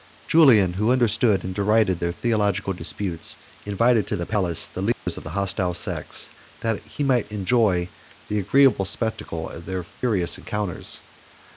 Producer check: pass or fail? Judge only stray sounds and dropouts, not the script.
fail